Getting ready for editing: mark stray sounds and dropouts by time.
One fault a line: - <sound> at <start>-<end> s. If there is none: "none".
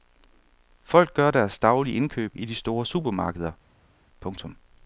none